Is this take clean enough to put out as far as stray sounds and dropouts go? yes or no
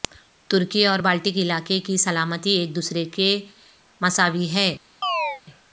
no